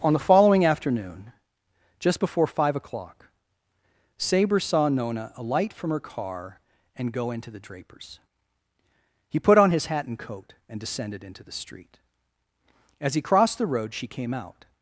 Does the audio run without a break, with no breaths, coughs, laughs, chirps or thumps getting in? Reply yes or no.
yes